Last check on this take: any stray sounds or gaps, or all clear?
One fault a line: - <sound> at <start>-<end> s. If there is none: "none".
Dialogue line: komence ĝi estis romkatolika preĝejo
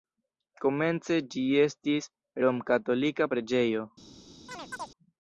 - chirp at 4.5-4.9 s